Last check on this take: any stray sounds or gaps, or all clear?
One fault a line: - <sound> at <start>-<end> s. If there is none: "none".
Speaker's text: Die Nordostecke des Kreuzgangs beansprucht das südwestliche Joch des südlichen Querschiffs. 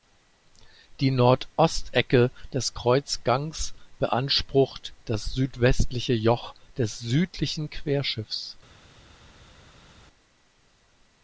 none